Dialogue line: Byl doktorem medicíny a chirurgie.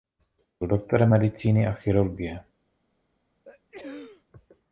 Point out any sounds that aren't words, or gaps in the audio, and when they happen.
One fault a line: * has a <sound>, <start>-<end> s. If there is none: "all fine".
* has a sneeze, 3.5-4.2 s